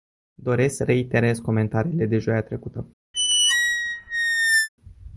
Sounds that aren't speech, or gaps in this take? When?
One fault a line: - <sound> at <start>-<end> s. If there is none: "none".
- squeak at 3.1-4.7 s